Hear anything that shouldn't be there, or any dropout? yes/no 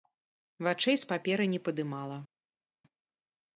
no